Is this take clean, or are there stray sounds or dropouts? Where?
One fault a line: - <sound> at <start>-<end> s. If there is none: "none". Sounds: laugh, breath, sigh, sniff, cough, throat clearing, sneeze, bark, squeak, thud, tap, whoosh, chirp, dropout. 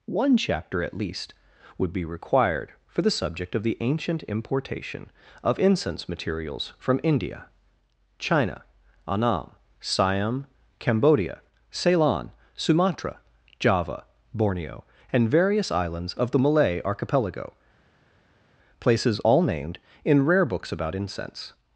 none